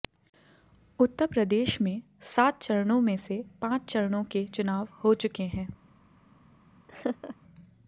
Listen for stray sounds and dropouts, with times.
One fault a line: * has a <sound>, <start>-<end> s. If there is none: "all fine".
* has a laugh, 6.9-7.4 s